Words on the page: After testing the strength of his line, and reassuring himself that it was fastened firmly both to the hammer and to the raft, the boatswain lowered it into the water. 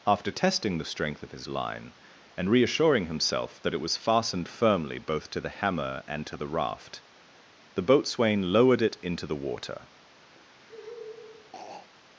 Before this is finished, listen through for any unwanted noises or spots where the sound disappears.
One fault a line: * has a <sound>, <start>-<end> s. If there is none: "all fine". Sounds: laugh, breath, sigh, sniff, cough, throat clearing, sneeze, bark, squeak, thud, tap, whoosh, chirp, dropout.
* has a throat clearing, 10.3-11.9 s